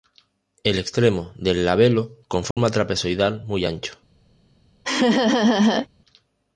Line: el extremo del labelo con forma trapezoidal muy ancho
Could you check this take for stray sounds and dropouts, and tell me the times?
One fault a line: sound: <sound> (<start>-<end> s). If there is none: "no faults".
sound: dropout (2.5-2.6 s)
sound: laugh (4.8-5.9 s)